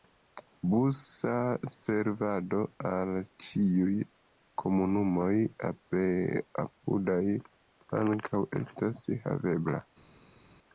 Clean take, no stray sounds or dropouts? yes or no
yes